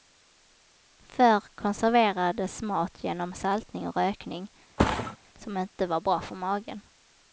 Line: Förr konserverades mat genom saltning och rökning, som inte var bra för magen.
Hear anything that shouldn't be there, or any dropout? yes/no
yes